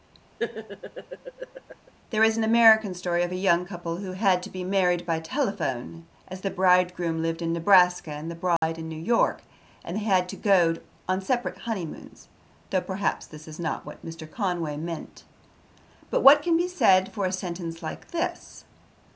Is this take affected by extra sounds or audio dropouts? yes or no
yes